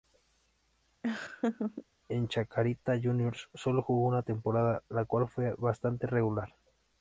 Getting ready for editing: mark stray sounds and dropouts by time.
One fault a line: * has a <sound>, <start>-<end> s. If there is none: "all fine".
* has a laugh, 1.0-1.9 s